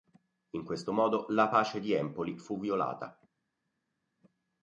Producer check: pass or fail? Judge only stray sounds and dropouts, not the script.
pass